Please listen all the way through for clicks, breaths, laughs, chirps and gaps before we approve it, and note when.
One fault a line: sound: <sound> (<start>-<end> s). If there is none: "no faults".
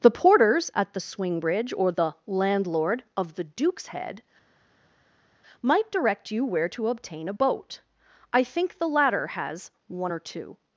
no faults